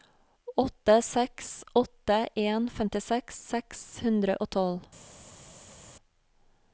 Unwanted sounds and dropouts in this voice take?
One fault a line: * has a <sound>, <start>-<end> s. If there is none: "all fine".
all fine